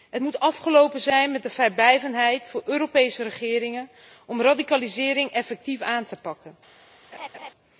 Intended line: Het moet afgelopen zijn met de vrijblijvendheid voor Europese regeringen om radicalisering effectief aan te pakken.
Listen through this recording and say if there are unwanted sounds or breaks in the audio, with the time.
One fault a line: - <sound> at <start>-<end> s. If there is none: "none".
- laugh at 7.1-7.5 s